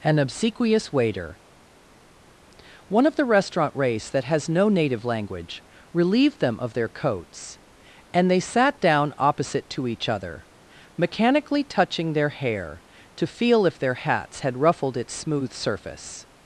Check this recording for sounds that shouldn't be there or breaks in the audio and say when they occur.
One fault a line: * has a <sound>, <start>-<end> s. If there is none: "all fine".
all fine